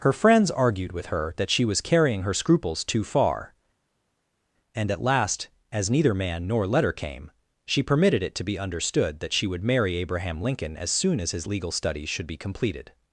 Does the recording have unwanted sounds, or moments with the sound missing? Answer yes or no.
no